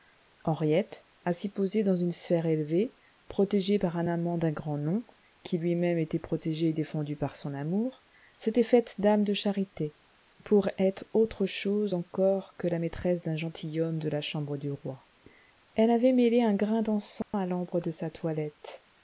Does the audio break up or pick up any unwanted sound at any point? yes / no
yes